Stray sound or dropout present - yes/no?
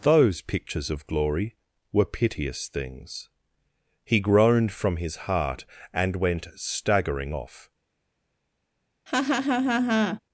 yes